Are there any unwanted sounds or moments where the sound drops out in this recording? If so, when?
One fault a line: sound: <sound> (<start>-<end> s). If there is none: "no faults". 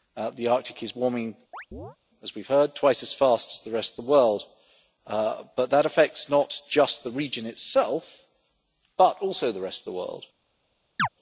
sound: chirp (1.5-2.0 s)
sound: chirp (11.0-11.1 s)